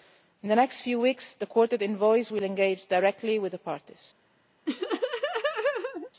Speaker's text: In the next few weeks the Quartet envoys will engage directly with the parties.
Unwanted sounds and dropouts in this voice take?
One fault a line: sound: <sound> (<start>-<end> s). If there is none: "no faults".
sound: laugh (4.7-6.1 s)